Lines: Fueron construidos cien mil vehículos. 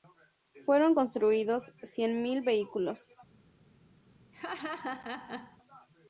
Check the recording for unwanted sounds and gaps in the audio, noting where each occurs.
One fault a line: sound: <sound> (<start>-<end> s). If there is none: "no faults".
sound: laugh (4.3-5.6 s)